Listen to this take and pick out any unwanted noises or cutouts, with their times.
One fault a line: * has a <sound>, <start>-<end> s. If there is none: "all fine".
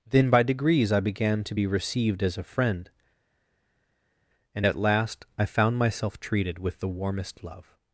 all fine